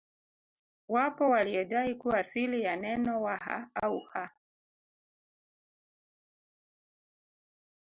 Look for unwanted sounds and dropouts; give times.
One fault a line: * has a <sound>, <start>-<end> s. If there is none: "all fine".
all fine